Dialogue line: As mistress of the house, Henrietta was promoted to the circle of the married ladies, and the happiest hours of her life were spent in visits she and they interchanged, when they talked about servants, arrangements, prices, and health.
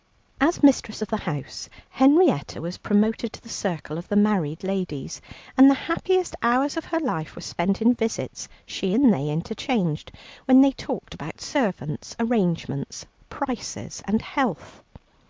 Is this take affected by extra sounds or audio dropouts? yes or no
no